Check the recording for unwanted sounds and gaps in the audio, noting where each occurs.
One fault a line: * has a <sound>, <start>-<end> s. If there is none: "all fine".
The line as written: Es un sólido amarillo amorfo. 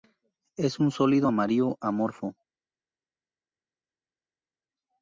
all fine